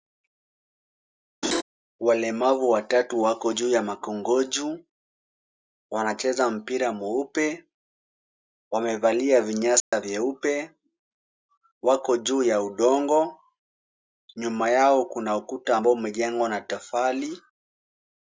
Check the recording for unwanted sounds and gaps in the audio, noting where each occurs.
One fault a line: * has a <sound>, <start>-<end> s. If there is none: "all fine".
* has a laugh, 1.4-1.6 s
* has a dropout, 9.8-9.9 s